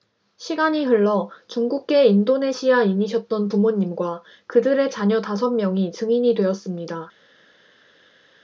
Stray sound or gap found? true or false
false